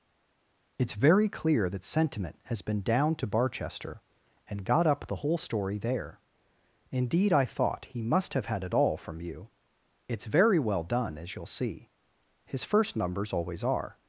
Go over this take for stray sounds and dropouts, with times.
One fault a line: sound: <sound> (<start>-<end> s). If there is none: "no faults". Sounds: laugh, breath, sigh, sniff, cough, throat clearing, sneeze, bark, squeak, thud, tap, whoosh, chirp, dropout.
no faults